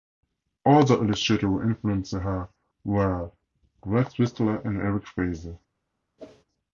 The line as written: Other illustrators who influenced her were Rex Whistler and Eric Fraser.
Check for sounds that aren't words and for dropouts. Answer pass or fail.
fail